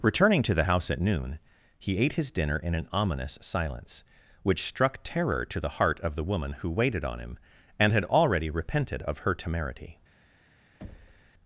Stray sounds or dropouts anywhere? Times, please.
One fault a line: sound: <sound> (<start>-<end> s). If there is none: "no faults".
sound: thud (10.8-11.3 s)